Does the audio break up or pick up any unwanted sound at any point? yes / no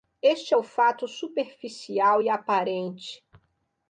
no